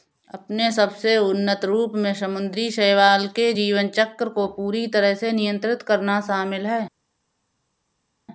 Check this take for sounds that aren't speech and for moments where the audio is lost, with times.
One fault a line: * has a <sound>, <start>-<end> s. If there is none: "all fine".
all fine